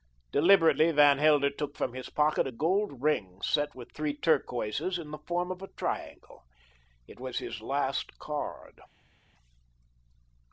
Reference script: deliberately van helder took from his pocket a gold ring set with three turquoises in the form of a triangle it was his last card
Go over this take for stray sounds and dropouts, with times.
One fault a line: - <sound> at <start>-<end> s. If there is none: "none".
none